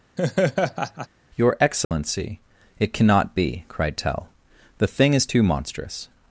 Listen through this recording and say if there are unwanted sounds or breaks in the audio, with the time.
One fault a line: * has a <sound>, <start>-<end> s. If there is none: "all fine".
* has a laugh, 0.2-1.1 s
* has a dropout, 1.8-1.9 s